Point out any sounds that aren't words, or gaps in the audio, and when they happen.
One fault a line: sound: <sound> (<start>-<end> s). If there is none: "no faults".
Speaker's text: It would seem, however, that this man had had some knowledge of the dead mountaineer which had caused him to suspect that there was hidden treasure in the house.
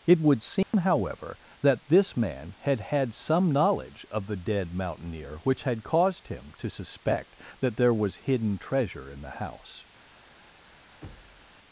sound: dropout (0.6-0.7 s)
sound: thud (11.0-11.6 s)